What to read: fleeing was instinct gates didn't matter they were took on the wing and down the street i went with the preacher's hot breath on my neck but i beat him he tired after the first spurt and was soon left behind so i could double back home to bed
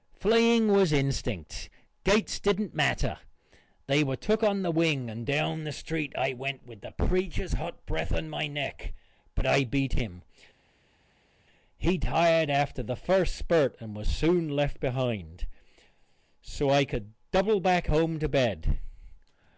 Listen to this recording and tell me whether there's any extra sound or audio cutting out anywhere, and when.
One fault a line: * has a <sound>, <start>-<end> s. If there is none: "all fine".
all fine